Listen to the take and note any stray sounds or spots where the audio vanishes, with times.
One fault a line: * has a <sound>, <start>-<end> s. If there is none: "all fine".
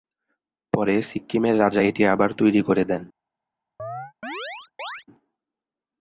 * has a chirp, 3.8-5.0 s